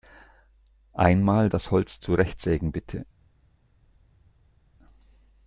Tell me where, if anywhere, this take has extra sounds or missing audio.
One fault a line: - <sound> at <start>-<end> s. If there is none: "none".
none